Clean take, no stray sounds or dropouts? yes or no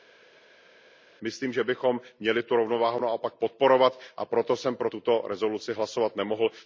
yes